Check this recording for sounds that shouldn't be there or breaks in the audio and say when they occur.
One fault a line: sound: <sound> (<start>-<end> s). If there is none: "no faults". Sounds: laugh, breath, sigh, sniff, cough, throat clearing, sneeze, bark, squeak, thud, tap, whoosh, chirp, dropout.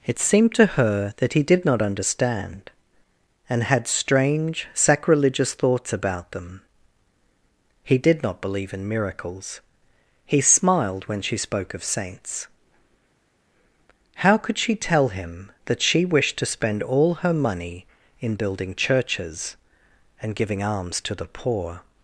no faults